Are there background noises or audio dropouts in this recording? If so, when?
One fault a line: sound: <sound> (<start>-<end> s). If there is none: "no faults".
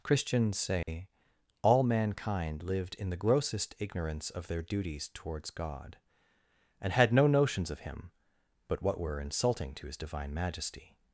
sound: dropout (0.8-0.9 s)